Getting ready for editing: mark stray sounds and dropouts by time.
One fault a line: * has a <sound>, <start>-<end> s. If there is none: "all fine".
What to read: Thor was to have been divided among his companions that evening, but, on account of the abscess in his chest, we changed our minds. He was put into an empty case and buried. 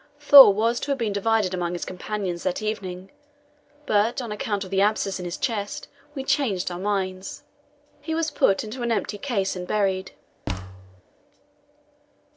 * has a thud, 10.5-11.0 s